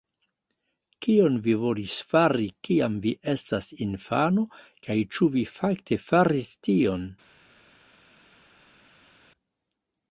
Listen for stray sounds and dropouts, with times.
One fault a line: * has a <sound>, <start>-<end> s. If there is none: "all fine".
all fine